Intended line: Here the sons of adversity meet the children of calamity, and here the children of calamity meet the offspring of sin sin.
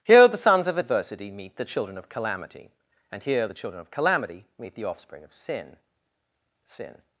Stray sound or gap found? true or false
false